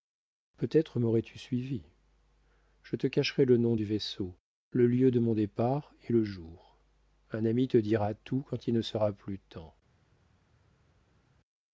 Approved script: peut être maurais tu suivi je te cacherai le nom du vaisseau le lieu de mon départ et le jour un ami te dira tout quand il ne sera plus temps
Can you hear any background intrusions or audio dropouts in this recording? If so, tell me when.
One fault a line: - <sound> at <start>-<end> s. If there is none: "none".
none